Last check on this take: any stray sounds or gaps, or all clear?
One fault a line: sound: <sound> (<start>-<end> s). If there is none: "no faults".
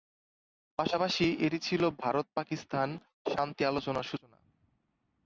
no faults